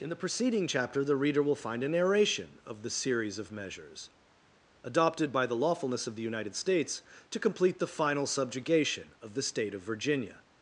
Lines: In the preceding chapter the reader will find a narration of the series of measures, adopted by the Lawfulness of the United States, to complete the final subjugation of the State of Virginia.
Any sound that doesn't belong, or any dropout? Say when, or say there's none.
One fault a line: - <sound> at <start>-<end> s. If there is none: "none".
none